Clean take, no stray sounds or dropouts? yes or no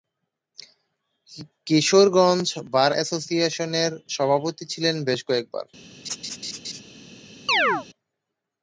no